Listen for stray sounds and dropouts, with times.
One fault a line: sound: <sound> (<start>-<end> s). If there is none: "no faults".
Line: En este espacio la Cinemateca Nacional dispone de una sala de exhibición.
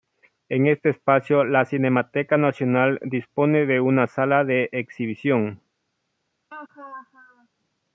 sound: laugh (6.5-7.5 s)